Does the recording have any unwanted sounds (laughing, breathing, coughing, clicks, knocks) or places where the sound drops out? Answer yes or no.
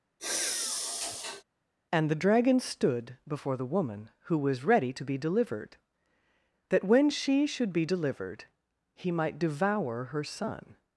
yes